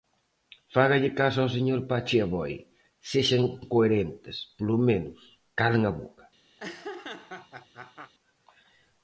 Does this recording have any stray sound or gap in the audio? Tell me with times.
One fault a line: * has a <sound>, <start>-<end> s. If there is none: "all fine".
* has a laugh, 6.6-8.1 s